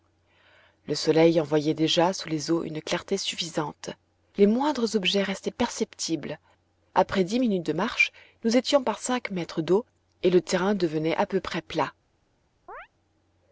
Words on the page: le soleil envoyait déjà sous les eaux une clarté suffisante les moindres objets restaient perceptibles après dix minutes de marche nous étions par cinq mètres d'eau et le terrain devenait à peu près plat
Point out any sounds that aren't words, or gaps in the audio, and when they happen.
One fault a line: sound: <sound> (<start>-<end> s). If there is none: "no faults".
sound: chirp (12.7-12.9 s)